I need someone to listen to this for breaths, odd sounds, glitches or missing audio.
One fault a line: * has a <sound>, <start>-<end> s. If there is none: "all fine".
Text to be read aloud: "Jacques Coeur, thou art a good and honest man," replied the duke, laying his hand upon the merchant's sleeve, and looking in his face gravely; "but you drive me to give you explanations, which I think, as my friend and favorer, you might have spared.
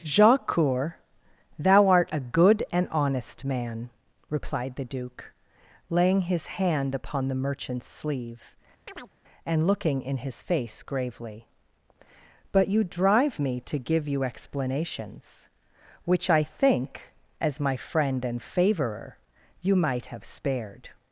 * has a chirp, 8.9-9.1 s